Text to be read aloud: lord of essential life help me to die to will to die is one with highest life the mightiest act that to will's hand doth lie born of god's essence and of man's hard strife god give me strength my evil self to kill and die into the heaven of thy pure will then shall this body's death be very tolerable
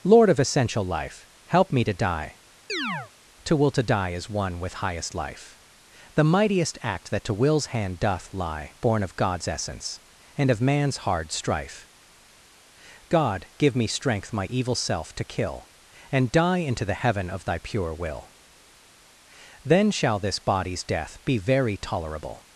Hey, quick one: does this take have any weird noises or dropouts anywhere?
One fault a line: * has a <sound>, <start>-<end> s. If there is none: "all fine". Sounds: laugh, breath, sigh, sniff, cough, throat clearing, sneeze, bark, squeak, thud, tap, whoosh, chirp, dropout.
* has a chirp, 2.7-3.1 s